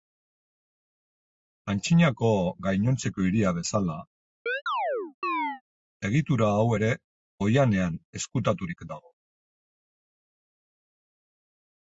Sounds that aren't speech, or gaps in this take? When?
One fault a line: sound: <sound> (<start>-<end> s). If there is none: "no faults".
sound: chirp (4.5-5.6 s)